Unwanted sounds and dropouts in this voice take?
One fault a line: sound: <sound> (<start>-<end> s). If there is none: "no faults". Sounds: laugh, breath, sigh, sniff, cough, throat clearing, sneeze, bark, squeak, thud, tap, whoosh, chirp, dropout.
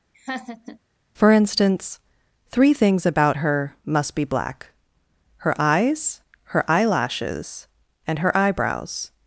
sound: laugh (0.1-0.8 s)